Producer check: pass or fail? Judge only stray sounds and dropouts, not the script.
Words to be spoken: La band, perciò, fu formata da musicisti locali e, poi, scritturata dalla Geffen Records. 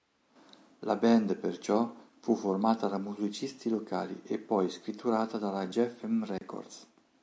fail